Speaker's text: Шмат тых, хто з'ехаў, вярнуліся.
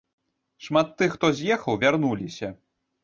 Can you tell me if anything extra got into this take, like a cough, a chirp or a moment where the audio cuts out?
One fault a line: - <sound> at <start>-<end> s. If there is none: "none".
none